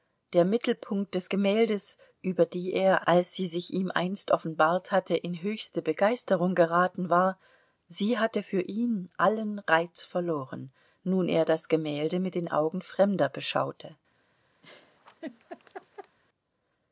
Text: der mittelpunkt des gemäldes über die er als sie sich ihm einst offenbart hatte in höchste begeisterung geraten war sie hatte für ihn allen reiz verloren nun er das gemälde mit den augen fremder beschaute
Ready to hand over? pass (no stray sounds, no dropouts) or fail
fail